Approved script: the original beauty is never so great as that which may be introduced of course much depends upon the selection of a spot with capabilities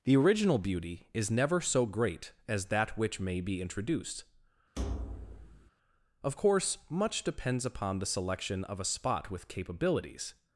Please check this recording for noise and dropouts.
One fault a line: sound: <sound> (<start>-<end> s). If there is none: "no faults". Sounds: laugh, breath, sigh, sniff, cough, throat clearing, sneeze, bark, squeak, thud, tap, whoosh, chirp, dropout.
sound: thud (4.8-5.7 s)